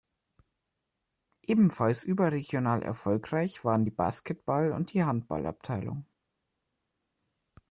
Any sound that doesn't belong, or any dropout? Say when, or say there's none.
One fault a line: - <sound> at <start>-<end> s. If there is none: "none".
none